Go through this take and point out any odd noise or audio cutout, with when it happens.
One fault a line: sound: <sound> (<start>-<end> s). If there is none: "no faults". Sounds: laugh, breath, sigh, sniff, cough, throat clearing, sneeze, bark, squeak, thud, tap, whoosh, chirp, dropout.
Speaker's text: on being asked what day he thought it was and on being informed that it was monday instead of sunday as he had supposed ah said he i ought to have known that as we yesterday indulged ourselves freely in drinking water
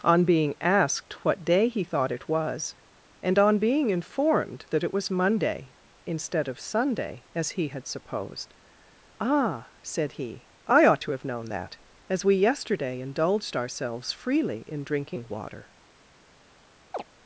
sound: chirp (16.9-17.0 s)